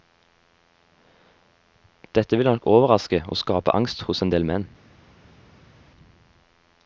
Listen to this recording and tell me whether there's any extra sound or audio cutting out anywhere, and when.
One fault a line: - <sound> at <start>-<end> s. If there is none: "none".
none